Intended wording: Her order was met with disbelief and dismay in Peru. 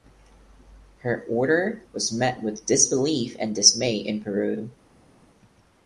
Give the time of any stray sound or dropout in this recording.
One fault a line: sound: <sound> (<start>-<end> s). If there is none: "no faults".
no faults